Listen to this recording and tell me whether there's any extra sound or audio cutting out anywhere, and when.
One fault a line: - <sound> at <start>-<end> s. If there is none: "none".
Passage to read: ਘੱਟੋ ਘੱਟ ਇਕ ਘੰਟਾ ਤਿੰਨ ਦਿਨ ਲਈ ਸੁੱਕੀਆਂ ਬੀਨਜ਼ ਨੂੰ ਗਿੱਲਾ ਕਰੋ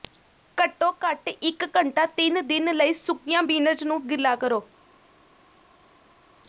none